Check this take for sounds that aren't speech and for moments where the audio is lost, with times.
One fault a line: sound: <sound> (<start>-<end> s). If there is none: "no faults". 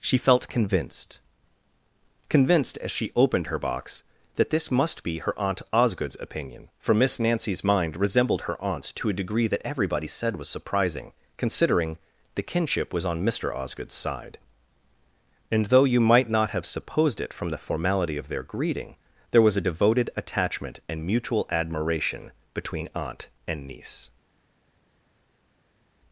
no faults